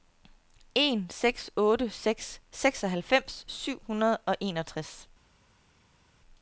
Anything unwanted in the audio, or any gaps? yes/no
no